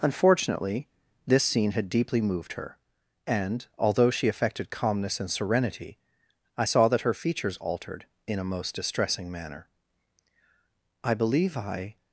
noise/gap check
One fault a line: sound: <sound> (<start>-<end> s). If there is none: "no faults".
no faults